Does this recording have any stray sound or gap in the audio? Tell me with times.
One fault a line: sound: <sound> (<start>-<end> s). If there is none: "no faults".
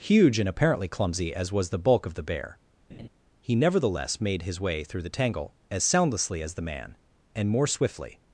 sound: laugh (2.9-3.1 s)